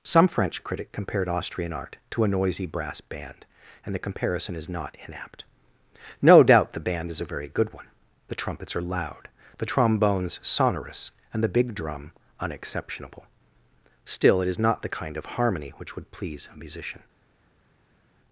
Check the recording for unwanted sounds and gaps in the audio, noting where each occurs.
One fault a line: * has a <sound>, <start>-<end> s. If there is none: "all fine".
all fine